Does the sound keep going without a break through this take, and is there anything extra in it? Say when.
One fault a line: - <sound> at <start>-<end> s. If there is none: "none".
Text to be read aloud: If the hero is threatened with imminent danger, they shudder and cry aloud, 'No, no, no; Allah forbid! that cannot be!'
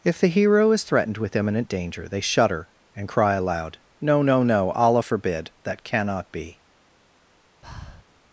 - breath at 7.6-8.0 s